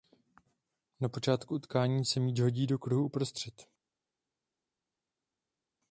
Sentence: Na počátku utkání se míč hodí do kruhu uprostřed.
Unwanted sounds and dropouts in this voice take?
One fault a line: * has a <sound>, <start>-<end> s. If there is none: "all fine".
all fine